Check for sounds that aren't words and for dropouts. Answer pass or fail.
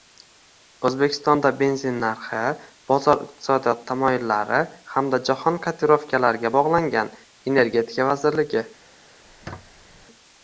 fail